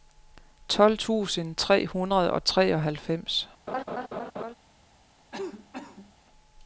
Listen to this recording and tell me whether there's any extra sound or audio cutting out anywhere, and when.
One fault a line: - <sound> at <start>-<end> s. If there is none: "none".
- laugh at 3.7-4.6 s
- cough at 5.3-6.1 s